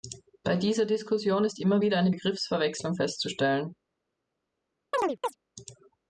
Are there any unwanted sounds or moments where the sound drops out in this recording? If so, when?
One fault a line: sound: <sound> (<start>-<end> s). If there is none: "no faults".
sound: chirp (4.9-5.4 s)